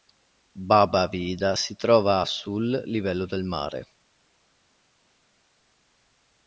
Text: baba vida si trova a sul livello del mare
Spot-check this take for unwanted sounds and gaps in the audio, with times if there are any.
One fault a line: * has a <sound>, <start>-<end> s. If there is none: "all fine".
all fine